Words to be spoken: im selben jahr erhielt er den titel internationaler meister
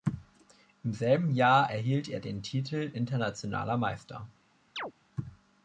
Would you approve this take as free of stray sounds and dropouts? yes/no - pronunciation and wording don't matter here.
no